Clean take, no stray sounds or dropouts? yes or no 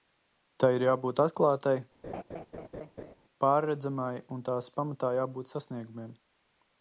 no